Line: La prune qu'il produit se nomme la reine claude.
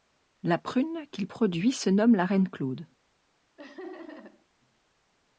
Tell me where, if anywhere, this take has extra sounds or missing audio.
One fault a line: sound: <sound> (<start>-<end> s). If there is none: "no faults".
sound: laugh (3.6-4.5 s)